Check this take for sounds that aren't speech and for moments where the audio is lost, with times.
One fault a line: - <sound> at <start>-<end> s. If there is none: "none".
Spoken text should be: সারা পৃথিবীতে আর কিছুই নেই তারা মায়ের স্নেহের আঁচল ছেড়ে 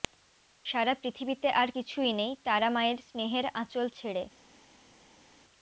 none